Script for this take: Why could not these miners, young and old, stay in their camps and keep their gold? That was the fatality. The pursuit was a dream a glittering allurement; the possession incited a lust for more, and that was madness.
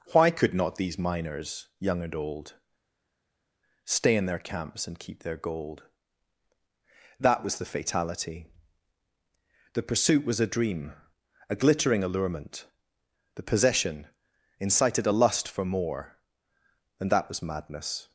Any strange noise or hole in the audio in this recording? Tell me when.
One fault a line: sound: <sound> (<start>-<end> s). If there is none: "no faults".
no faults